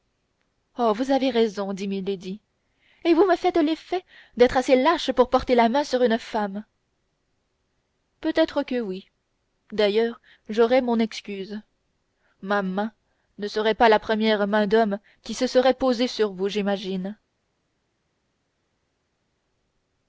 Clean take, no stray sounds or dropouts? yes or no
yes